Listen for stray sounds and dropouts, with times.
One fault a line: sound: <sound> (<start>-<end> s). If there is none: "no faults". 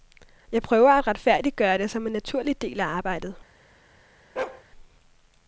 sound: bark (4.4-4.6 s)